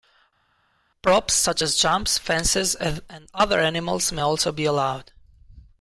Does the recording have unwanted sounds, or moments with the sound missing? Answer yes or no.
no